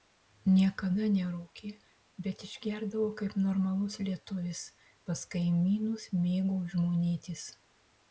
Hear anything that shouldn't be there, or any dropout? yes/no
no